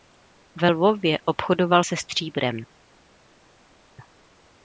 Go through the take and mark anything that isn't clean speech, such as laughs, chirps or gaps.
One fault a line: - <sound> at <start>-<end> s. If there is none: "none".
none